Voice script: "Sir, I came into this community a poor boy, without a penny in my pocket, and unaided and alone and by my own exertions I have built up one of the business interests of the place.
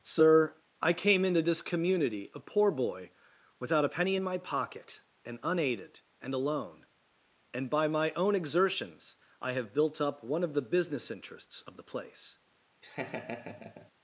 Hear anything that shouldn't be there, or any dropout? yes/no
yes